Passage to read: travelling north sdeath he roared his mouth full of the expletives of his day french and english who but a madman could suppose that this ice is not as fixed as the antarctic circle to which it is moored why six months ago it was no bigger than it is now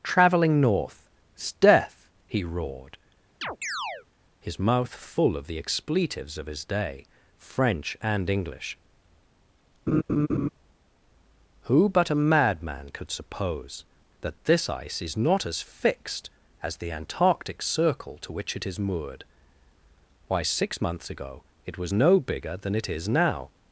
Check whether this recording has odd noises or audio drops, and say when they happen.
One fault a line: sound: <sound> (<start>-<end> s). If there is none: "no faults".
sound: chirp (3.4-4.1 s)
sound: laugh (9.9-10.5 s)